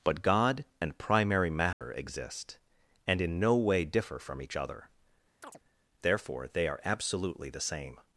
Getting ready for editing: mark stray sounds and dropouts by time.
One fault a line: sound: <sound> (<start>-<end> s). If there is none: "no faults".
sound: dropout (1.7-1.8 s)
sound: chirp (5.4-5.6 s)